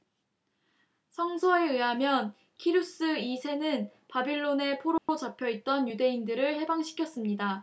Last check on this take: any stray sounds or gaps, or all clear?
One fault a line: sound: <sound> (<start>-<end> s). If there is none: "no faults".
sound: dropout (5.0-5.1 s)